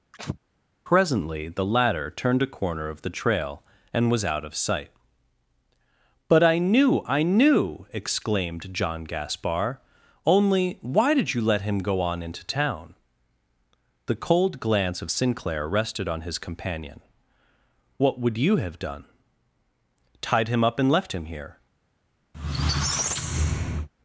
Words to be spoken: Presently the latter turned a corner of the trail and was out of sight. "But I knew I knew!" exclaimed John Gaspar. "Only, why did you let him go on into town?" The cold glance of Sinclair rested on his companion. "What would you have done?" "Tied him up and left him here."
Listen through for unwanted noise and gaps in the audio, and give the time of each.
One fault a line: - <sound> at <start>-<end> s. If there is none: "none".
- sneeze at 0.1-0.4 s
- squeak at 22.3-23.9 s